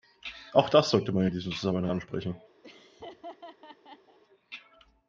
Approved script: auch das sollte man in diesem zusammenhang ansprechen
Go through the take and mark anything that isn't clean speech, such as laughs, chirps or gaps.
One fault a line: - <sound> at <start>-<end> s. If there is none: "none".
- laugh at 2.6-4.2 s